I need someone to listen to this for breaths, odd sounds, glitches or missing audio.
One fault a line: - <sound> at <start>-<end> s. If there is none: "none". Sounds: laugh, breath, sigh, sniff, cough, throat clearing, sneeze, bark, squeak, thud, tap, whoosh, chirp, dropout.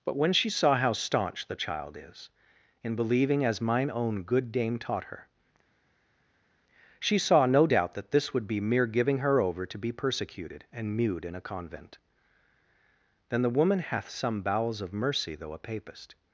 none